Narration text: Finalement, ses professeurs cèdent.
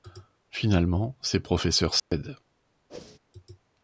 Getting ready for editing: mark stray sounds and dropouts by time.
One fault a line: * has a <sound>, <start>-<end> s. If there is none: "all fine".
* has a dropout, 2.0-2.1 s
* has a whoosh, 2.9-3.2 s